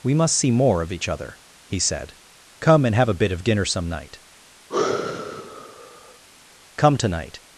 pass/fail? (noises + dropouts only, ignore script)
fail